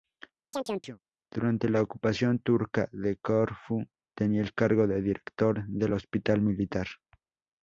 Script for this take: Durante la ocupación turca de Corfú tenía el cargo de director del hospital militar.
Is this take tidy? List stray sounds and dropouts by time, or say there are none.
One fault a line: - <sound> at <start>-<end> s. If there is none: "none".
- chirp at 0.5-1.0 s